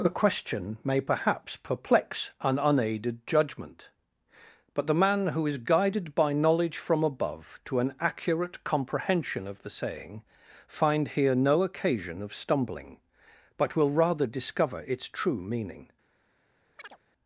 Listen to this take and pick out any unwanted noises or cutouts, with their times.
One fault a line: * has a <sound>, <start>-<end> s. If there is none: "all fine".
* has a chirp, 16.8-17.0 s